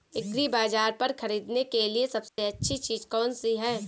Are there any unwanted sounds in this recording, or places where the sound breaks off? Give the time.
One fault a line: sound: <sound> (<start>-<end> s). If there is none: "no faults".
sound: dropout (2.3-2.4 s)